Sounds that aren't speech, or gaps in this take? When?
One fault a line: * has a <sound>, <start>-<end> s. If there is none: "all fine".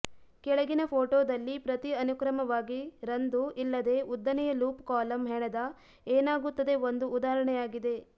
all fine